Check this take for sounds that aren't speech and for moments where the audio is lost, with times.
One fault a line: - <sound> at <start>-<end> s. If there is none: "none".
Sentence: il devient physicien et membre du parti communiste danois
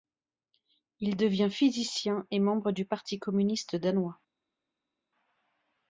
none